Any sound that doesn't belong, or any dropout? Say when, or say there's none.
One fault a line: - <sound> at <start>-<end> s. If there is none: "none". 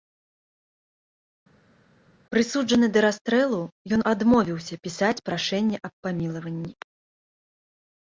none